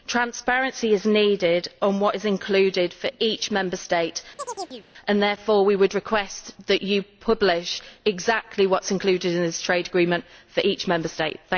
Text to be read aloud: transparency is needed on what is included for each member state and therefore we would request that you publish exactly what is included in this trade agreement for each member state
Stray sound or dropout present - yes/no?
yes